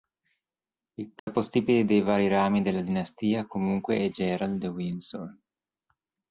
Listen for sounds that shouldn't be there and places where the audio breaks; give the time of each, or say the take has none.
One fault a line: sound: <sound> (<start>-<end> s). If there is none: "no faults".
sound: dropout (1.2-1.3 s)